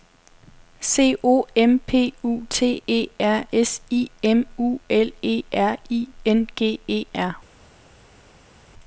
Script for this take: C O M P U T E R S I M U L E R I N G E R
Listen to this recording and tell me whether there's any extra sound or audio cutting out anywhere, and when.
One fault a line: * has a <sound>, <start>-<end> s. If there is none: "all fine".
all fine